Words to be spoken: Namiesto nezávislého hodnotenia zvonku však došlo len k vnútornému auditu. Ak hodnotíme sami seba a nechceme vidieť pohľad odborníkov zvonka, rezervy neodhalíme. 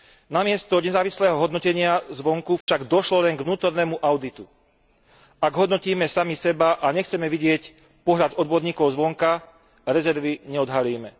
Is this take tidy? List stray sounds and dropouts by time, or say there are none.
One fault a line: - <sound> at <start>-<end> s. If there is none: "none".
- dropout at 2.6-2.7 s